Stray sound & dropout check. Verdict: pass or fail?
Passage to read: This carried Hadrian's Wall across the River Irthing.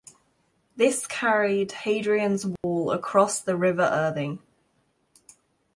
fail